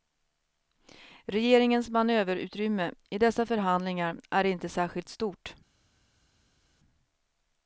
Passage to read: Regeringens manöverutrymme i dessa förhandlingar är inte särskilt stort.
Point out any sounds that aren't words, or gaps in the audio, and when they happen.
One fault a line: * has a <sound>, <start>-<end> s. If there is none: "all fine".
all fine